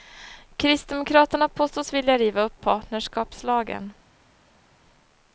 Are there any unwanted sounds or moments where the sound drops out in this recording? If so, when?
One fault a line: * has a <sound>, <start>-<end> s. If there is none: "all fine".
all fine